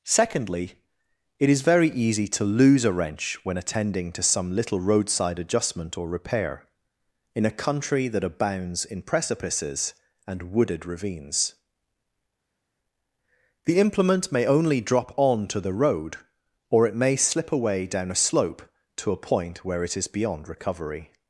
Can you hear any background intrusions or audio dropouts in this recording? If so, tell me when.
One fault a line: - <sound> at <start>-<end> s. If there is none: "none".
none